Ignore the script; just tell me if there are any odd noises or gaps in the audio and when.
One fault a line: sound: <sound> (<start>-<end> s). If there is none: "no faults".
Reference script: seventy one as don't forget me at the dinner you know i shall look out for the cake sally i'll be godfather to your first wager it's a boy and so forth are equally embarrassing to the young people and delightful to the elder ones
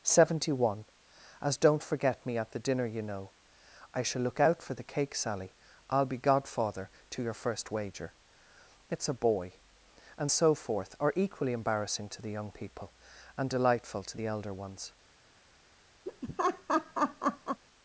sound: laugh (16.1-17.6 s)